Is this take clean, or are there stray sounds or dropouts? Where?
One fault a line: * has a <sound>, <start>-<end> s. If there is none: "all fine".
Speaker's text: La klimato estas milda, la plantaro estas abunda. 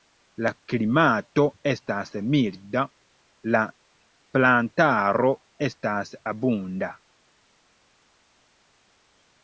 all fine